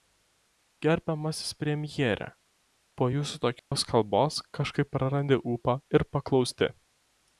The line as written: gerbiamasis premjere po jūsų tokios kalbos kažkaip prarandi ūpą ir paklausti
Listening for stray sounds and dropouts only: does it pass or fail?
fail